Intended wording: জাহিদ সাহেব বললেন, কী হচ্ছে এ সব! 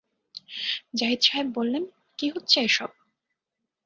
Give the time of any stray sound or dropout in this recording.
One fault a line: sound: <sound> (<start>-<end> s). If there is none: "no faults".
no faults